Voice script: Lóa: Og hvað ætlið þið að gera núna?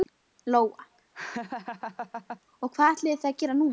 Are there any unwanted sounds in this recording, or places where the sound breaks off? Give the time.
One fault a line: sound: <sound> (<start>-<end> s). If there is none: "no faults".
sound: laugh (1.1-2.4 s)